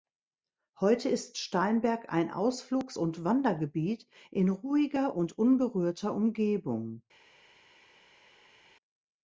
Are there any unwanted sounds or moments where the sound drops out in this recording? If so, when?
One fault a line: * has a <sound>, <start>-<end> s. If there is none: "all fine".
all fine